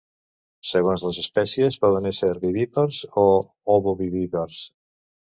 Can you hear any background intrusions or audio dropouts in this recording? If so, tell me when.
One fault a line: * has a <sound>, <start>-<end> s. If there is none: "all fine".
all fine